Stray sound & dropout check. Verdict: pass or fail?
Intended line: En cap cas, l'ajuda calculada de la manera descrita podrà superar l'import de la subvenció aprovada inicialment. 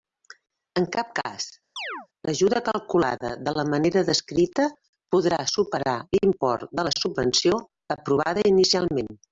fail